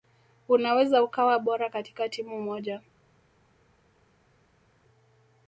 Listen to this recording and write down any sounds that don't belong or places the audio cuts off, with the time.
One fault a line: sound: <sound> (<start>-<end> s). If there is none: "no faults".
no faults